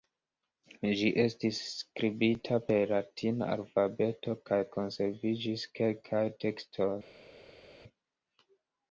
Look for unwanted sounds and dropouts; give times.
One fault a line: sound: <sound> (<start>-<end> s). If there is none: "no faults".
no faults